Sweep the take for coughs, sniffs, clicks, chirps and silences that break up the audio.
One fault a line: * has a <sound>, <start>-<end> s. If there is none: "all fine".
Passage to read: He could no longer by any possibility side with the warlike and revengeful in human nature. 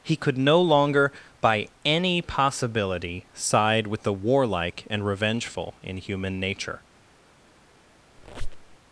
* has a squeak, 8.2-8.8 s